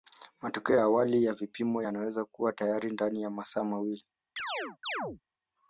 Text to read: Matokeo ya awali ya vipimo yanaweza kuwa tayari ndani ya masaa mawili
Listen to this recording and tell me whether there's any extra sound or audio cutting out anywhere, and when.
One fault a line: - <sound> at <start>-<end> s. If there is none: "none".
- chirp at 4.4-5.2 s